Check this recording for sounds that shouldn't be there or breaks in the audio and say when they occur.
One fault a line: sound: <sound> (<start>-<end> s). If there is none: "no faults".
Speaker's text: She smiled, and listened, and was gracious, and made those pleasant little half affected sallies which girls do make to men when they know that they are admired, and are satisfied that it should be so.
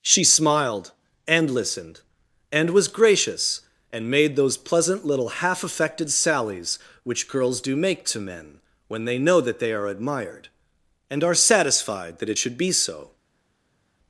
no faults